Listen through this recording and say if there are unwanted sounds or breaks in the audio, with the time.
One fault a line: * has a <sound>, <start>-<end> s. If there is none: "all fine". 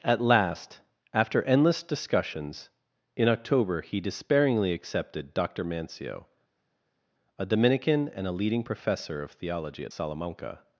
all fine